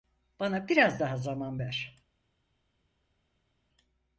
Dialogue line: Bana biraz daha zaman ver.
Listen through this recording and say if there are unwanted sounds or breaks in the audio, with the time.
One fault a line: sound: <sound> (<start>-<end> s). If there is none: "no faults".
no faults